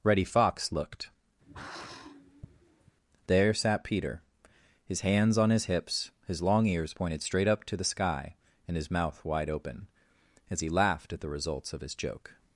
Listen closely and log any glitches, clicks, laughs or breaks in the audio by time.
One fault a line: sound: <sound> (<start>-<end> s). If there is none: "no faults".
sound: sigh (1.4-3.0 s)